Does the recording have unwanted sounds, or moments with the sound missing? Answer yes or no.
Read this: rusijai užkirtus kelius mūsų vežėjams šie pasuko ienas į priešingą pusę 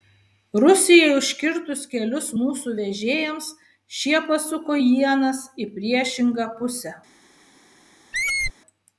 yes